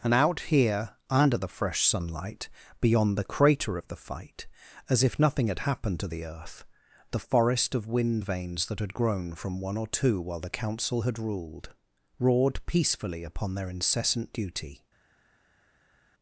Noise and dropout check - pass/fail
pass